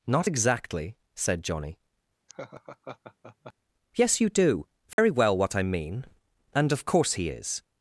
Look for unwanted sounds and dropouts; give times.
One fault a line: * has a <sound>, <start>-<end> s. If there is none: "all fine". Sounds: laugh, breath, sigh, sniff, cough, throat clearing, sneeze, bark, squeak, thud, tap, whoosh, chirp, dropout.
* has a laugh, 2.3-3.5 s
* has a dropout, 4.9-5.0 s